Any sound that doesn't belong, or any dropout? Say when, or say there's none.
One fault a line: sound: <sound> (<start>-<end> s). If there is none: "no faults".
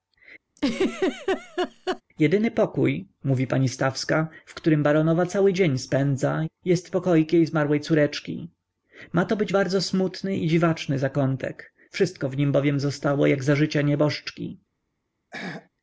sound: laugh (0.6-2.0 s)
sound: throat clearing (15.3-15.7 s)